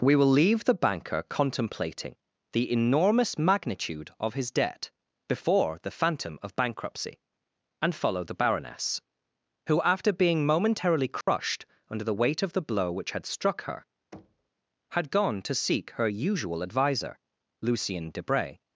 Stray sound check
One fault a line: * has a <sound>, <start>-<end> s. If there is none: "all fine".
* has a dropout, 11.2-11.3 s
* has a thud, 14.1-14.5 s